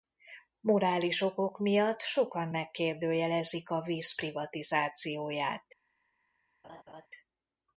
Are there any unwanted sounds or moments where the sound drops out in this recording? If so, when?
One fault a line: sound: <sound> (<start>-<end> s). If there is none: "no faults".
sound: laugh (6.6-7.1 s)